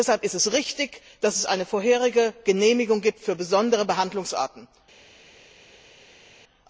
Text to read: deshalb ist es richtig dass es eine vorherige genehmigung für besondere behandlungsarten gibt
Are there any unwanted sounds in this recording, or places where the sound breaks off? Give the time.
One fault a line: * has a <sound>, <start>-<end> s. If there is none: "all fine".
all fine